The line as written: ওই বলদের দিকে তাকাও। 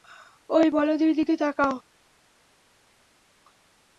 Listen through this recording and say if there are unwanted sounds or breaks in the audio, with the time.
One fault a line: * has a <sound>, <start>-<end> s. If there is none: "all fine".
all fine